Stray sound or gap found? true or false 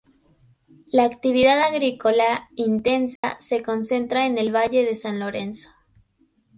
true